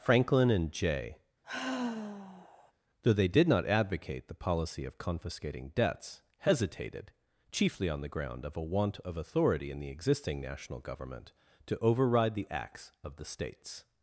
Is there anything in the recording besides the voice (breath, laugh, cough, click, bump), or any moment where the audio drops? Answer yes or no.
yes